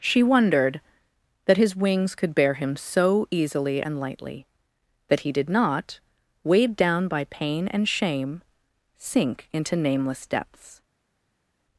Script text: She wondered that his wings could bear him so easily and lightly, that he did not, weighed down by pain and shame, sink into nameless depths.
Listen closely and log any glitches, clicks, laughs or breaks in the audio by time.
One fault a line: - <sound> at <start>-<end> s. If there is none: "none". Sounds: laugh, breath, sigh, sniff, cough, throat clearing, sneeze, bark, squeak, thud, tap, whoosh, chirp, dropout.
none